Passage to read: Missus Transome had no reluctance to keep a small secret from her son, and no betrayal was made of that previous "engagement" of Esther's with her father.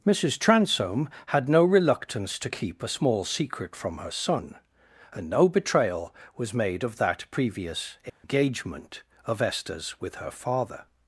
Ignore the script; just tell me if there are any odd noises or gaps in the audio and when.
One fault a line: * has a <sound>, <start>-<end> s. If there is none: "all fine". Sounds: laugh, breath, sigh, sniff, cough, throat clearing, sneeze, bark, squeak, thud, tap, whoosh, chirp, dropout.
* has a dropout, 8.1-8.2 s